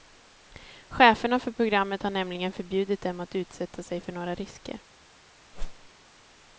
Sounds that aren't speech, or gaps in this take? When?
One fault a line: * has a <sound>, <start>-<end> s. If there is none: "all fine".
* has a whoosh, 5.5-5.9 s